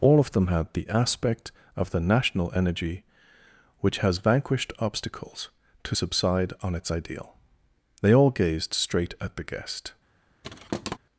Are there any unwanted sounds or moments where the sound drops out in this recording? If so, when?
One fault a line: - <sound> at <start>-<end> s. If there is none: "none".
- thud at 10.4-11.0 s